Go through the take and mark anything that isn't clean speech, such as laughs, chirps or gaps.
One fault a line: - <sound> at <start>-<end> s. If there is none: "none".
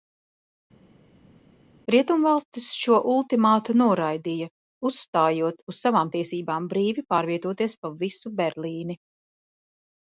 none